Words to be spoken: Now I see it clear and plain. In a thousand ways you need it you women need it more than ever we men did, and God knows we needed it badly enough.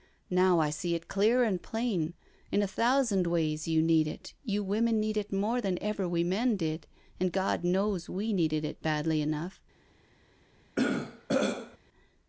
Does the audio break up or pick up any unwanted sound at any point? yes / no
yes